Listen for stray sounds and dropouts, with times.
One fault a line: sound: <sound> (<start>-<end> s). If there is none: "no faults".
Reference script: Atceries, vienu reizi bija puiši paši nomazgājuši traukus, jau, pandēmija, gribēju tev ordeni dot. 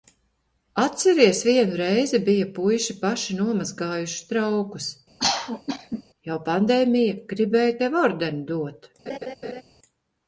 sound: cough (5.2-6.0 s)
sound: laugh (9.1-9.6 s)